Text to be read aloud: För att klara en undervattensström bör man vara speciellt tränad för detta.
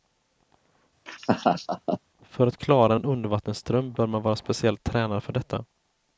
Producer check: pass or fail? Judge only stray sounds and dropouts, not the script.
fail